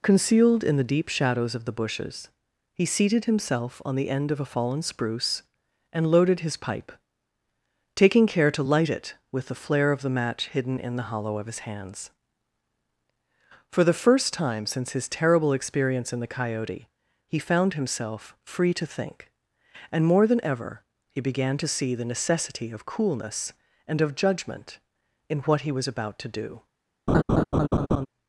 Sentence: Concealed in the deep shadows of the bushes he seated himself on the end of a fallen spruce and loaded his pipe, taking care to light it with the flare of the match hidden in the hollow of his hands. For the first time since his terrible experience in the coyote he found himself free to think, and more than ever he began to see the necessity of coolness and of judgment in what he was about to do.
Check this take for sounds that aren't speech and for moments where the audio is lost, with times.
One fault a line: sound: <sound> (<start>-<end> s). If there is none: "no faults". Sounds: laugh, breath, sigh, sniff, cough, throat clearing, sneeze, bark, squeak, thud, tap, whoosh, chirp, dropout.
sound: laugh (27.1-28.1 s)